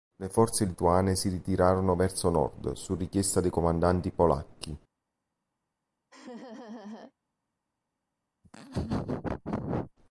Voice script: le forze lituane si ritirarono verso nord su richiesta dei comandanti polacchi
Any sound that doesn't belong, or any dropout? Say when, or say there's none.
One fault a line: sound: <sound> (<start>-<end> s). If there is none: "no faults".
sound: laugh (6.1-7.1 s)
sound: laugh (8.4-9.9 s)